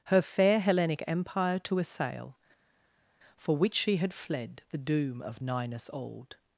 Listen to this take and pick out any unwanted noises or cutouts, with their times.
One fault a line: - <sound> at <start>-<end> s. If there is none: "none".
none